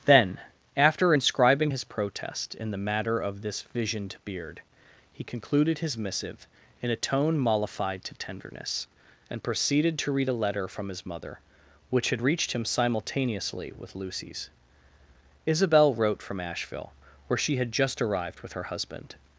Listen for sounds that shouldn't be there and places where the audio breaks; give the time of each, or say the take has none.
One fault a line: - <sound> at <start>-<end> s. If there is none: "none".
none